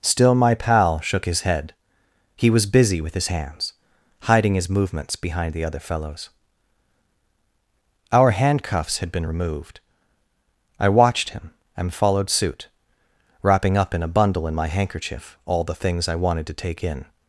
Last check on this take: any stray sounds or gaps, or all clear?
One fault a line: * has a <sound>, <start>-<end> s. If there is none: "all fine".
all fine